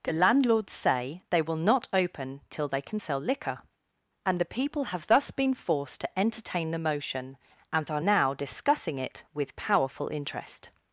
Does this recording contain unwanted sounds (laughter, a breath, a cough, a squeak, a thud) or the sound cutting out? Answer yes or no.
no